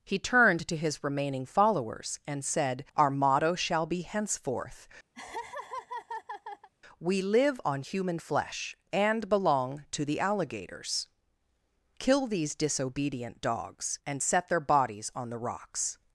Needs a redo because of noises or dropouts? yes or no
yes